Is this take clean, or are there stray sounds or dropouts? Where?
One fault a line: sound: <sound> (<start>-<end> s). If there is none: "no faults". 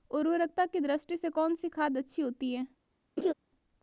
sound: laugh (3.2-3.3 s)